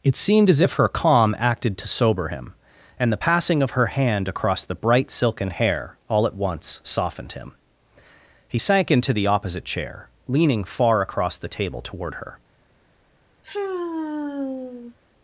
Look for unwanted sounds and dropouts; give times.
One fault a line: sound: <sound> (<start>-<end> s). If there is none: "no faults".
sound: sigh (13.4-14.9 s)